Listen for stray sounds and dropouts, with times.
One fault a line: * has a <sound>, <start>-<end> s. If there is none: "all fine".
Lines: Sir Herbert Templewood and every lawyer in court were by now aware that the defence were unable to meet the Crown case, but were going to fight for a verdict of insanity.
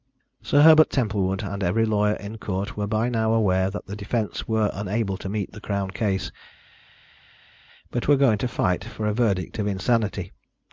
all fine